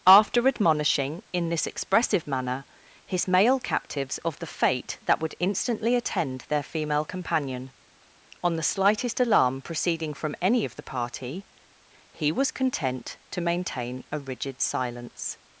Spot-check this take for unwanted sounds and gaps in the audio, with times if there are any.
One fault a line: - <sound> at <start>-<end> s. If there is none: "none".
none